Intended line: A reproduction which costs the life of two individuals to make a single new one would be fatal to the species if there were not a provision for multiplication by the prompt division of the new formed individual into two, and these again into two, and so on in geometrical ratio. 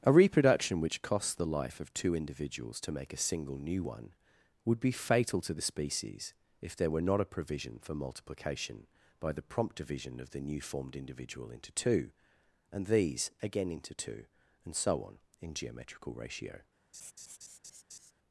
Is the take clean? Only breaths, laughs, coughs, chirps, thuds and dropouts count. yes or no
no